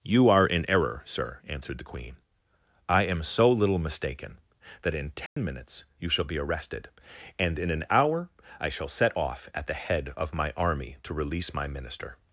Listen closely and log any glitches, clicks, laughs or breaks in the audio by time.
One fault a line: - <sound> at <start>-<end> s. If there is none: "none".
- dropout at 5.3-5.4 s